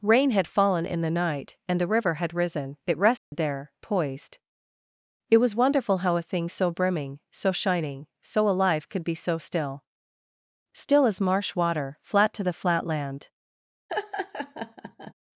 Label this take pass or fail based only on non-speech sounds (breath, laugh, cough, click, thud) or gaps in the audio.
fail